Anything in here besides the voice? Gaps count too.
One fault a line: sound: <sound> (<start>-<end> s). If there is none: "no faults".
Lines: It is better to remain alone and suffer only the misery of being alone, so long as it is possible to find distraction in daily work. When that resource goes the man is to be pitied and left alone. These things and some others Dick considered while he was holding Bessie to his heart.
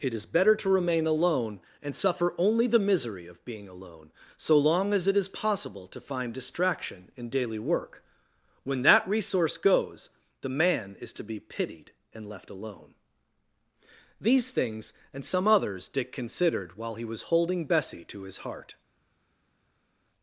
no faults